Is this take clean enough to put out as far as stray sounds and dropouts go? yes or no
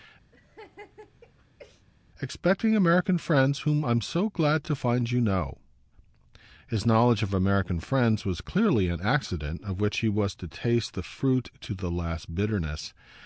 no